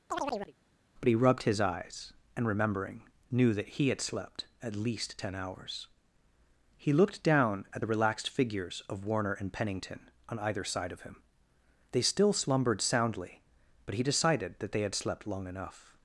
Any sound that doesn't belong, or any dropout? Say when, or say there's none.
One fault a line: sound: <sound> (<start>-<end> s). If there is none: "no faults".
sound: chirp (0.1-0.5 s)